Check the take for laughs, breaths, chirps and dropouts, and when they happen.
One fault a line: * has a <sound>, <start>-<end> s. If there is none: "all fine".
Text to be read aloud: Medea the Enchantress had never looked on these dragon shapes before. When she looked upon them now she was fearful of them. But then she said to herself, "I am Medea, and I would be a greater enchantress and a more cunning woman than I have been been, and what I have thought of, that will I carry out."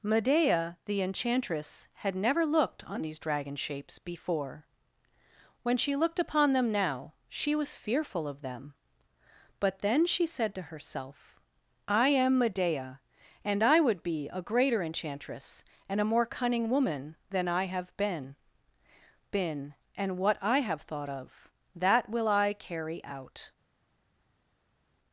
all fine